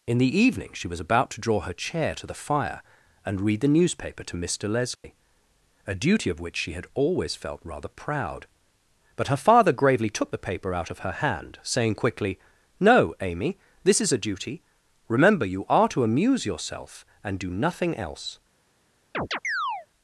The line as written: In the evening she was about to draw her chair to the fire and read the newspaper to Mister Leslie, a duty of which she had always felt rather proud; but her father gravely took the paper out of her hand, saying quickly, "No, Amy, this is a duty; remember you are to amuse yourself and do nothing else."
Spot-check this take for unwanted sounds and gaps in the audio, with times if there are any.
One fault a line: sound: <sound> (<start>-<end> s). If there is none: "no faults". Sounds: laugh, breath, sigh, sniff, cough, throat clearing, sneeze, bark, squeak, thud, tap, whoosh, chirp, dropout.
sound: dropout (5.0-5.0 s)
sound: chirp (19.1-19.9 s)